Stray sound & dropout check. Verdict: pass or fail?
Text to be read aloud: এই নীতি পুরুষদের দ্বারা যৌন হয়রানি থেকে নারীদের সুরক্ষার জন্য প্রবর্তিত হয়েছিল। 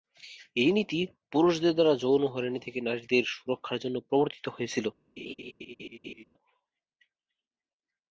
fail